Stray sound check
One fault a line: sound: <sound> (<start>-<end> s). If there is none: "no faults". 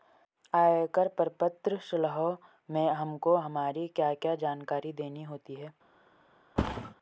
sound: thud (6.6-6.9 s)